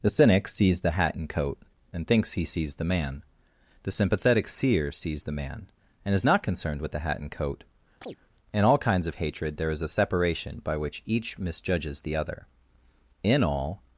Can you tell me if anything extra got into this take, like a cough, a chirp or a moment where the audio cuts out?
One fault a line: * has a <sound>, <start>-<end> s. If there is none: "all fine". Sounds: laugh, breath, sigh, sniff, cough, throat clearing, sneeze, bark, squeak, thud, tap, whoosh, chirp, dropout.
* has a chirp, 8.0-8.2 s